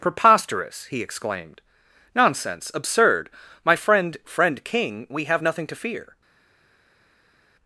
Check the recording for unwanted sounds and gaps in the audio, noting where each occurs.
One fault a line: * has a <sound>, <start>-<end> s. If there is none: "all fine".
all fine